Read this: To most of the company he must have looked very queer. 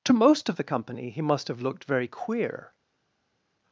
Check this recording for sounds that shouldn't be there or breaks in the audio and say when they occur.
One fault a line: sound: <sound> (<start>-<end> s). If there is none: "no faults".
no faults